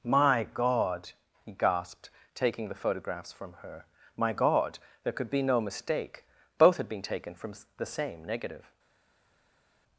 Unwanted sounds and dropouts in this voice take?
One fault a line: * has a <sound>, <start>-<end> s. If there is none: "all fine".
all fine